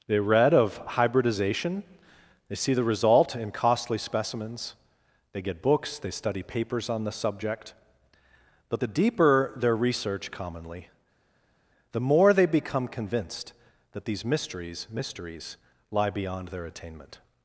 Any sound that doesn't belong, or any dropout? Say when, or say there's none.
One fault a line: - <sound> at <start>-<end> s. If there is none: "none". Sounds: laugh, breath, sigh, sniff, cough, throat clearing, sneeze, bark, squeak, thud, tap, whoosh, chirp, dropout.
none